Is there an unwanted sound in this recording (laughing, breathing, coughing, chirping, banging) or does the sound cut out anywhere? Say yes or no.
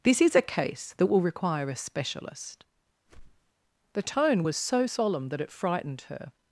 yes